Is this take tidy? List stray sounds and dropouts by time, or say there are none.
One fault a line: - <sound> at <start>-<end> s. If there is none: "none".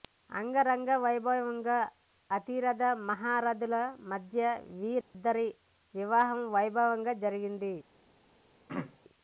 - dropout at 5.0-5.1 s
- throat clearing at 8.7-9.0 s